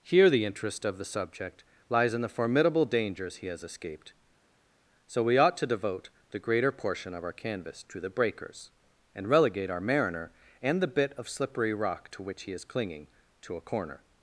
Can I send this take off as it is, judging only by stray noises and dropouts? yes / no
yes